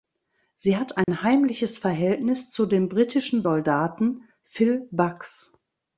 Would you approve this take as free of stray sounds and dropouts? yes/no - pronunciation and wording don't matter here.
no